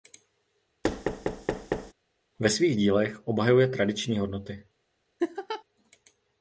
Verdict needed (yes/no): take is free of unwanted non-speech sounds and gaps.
no